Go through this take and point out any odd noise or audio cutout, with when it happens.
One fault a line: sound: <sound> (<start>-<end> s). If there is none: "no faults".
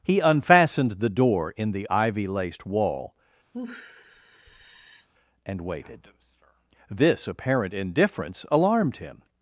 sound: sigh (3.5-5.1 s)